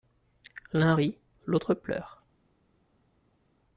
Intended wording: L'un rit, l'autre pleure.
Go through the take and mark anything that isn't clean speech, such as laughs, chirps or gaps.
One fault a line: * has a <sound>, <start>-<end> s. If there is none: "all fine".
all fine